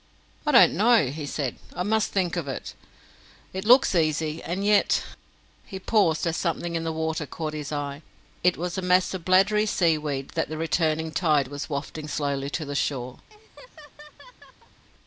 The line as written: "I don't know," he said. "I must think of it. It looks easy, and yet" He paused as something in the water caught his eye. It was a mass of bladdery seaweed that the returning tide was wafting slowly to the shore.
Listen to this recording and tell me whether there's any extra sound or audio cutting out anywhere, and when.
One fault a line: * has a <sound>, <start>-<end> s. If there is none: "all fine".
* has a laugh, 13.3-14.8 s